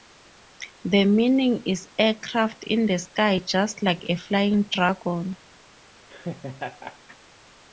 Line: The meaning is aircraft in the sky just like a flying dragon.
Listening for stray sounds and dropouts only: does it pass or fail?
fail